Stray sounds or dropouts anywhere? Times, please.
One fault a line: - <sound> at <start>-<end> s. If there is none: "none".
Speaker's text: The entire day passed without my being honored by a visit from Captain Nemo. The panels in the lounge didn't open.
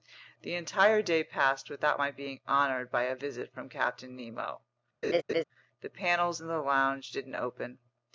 - laugh at 5.0-5.4 s